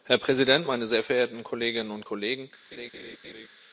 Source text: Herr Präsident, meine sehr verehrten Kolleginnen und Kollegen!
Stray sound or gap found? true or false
true